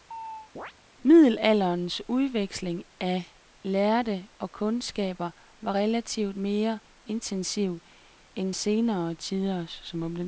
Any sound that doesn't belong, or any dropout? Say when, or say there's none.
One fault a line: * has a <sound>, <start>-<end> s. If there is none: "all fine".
* has a chirp, 0.1-0.7 s